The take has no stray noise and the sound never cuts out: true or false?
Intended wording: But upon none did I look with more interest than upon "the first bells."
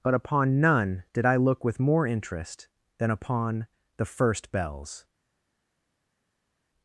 true